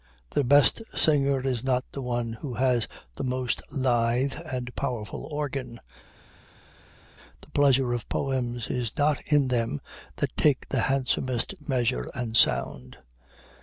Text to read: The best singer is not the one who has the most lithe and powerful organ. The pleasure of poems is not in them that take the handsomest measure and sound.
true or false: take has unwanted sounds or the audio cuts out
false